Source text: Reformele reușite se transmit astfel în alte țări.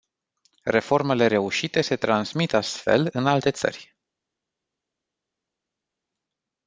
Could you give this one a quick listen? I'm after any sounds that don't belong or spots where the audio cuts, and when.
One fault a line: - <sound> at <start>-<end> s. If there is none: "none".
none